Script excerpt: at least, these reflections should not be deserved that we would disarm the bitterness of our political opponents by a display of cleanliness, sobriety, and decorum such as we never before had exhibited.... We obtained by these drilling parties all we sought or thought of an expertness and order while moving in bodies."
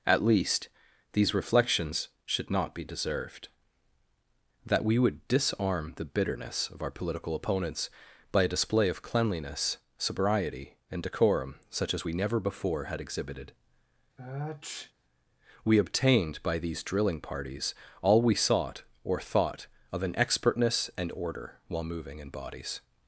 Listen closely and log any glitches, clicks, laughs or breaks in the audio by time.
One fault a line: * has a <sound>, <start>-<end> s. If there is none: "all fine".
* has a sniff, 14.2-14.9 s